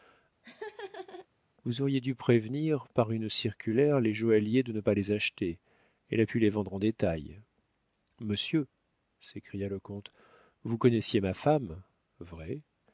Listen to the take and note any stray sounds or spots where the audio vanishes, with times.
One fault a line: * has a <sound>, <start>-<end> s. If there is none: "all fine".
* has a laugh, 0.4-1.3 s